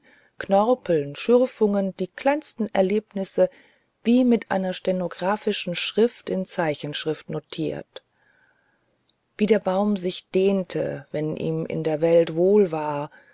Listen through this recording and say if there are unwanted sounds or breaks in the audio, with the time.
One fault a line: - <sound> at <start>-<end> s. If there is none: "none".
none